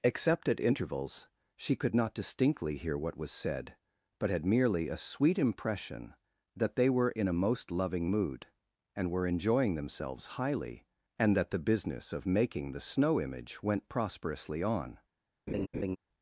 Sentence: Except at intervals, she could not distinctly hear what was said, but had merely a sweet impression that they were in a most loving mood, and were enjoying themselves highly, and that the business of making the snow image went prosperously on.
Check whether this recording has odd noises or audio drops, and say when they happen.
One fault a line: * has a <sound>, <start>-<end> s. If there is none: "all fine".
* has a laugh, 15.5-16.0 s